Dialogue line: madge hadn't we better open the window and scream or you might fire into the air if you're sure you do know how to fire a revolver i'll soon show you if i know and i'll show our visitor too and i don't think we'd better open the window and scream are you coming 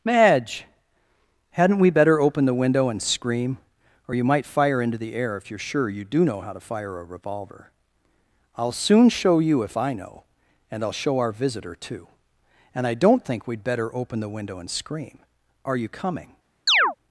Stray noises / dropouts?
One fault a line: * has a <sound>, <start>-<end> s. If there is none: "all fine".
* has a chirp, 16.7-17.0 s